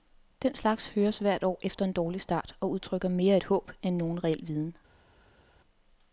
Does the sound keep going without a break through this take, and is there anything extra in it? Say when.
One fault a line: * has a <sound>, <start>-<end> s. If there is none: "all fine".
all fine